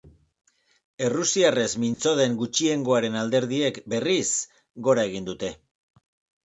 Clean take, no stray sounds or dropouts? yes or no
no